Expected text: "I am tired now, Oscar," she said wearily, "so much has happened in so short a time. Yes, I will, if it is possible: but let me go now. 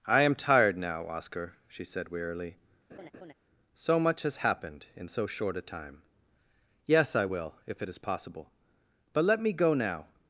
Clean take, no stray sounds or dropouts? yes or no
no